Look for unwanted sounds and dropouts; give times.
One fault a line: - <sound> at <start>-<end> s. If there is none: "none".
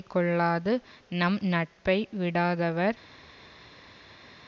none